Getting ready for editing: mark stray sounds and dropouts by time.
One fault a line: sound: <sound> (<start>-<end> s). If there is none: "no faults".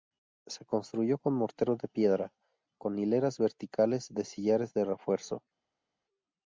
no faults